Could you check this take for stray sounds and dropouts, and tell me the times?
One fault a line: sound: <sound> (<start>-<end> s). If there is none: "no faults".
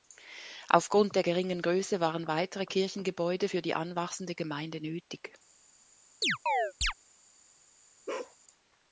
sound: chirp (6.2-6.9 s)
sound: bark (8.1-8.4 s)